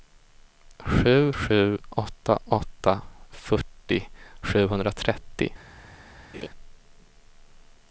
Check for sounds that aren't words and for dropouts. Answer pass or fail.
fail